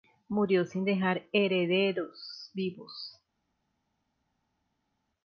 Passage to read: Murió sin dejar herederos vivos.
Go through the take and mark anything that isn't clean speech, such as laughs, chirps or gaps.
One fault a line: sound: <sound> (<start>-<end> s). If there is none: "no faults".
no faults